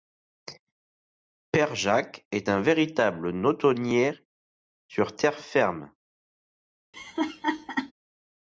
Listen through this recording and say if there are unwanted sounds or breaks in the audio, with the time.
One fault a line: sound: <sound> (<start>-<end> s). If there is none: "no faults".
sound: laugh (6.9-7.9 s)